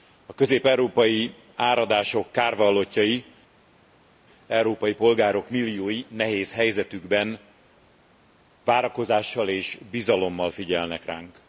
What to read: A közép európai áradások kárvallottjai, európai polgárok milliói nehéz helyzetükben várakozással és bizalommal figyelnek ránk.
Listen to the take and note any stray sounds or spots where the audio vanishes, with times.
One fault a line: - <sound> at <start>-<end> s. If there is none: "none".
none